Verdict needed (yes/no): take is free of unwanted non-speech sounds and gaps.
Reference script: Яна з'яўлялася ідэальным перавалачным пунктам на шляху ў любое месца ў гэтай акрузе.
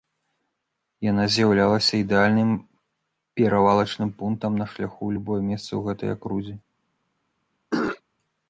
no